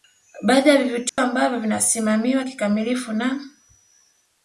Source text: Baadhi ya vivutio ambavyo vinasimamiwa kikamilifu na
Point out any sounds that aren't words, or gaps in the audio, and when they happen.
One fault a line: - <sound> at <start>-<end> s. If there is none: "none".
- dropout at 1.1-1.2 s